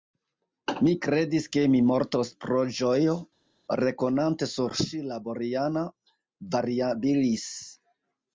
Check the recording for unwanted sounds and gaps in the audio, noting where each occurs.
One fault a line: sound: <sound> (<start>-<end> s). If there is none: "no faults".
no faults